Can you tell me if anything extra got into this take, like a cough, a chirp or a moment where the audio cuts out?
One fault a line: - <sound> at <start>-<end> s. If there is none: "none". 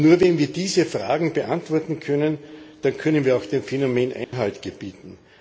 - dropout at 4.2-4.3 s